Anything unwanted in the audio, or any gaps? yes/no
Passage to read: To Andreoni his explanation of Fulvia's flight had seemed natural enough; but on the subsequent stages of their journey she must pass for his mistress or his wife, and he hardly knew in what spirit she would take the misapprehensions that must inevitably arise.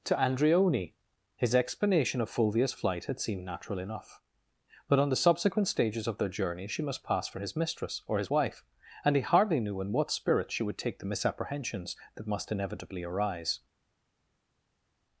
no